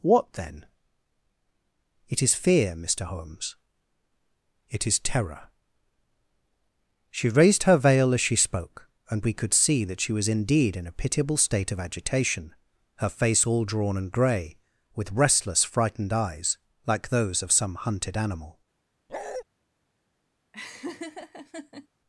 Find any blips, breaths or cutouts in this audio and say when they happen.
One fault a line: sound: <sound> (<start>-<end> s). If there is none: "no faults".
sound: bark (19.1-19.4 s)
sound: laugh (20.5-21.9 s)